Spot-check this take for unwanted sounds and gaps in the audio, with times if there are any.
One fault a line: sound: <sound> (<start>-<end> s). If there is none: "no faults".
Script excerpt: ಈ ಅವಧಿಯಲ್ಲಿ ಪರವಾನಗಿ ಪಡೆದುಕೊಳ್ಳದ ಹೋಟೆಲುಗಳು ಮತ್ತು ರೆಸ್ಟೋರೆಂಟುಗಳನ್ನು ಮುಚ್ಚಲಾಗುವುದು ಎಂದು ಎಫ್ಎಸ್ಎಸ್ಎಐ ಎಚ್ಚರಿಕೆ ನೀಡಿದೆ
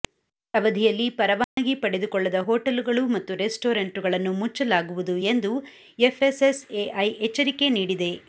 sound: dropout (1.4-1.6 s)